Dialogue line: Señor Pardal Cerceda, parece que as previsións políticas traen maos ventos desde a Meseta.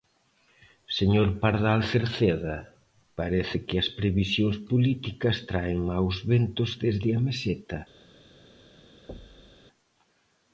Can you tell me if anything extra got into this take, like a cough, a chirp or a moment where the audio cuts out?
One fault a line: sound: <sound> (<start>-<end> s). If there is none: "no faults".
sound: thud (9.1-9.6 s)